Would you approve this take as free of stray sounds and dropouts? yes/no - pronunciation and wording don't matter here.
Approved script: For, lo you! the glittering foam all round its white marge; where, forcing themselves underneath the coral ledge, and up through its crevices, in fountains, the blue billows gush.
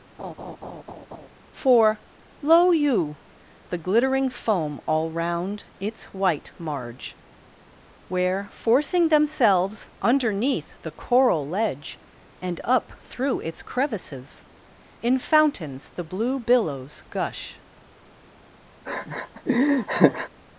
no